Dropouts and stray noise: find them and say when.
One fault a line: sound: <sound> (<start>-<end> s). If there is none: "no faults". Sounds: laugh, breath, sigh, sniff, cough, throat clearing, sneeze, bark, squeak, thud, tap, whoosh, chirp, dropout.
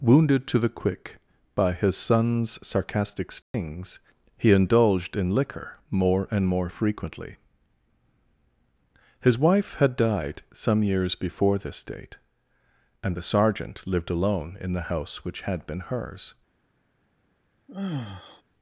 sound: dropout (3.4-3.5 s)
sound: sigh (17.7-18.4 s)